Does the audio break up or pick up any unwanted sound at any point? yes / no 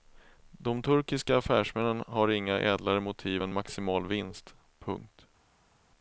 no